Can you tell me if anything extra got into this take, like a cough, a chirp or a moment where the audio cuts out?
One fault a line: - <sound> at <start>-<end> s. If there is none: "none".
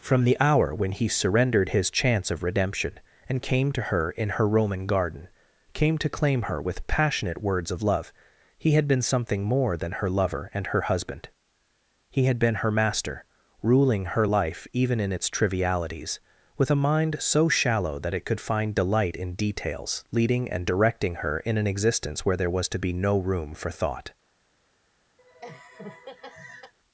- laugh at 25.2-26.7 s